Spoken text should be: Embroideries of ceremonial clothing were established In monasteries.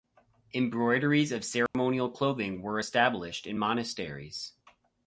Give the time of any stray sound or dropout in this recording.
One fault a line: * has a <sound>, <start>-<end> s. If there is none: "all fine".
* has a dropout, 1.7-1.7 s